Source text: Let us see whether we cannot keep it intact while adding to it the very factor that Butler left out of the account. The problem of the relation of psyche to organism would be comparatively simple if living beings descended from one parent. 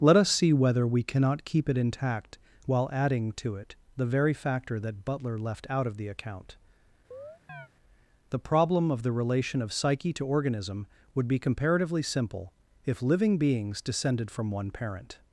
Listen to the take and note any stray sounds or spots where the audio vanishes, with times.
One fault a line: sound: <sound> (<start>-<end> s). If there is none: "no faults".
sound: chirp (7.1-7.7 s)